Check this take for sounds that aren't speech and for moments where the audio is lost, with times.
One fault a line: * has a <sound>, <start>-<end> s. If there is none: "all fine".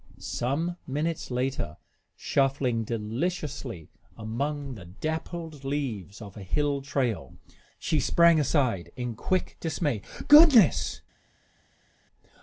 all fine